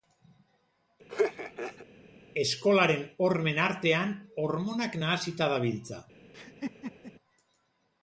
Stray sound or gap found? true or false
true